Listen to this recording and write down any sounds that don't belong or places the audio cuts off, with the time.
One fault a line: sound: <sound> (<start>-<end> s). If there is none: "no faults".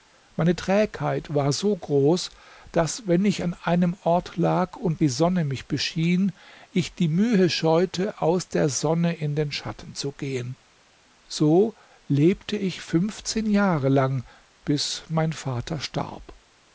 no faults